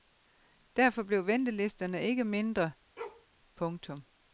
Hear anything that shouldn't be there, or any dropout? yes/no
yes